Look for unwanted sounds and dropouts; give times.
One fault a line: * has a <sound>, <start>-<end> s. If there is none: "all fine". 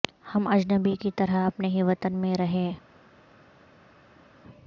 all fine